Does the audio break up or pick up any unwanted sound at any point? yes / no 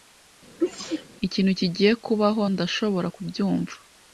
yes